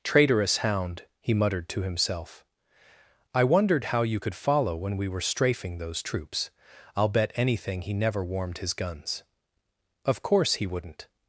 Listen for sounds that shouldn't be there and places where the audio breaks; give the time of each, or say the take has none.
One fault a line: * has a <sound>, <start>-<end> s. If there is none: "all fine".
all fine